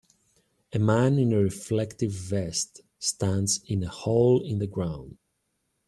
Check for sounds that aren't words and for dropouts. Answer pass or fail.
pass